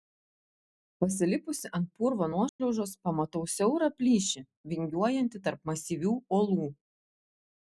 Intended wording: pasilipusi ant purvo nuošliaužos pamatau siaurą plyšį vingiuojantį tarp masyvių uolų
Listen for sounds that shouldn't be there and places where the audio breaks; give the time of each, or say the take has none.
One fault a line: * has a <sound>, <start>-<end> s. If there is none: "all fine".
* has a dropout, 2.5-2.6 s